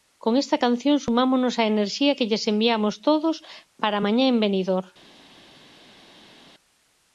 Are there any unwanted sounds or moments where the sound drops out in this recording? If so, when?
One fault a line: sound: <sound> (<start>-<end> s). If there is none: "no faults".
no faults